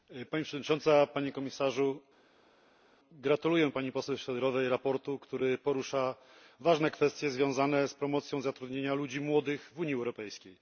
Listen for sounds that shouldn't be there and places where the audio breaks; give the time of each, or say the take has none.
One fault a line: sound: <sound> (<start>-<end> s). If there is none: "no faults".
no faults